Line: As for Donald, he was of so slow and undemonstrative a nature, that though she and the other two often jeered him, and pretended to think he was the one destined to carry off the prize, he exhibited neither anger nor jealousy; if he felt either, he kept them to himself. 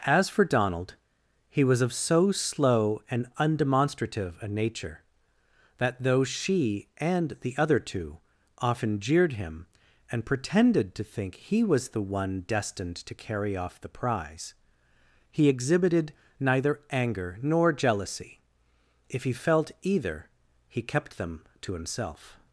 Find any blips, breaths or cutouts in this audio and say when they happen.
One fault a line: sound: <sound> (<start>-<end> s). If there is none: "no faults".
no faults